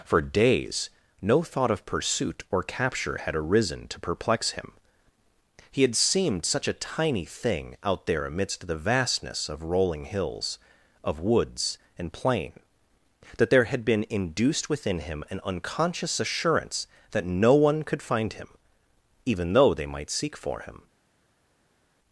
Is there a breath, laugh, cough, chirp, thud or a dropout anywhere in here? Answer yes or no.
no